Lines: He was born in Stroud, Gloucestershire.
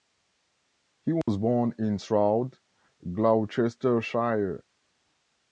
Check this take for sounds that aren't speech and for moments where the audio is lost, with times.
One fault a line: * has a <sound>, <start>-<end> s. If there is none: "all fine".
* has a dropout, 1.2-1.3 s